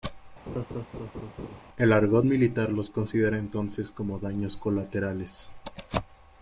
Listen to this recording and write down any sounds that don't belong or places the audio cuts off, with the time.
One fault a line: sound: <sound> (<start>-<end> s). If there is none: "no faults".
sound: laugh (0.5-1.6 s)